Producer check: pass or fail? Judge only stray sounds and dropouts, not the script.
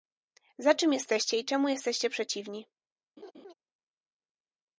fail